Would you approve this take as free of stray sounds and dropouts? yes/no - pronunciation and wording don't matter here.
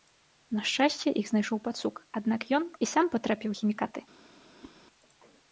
no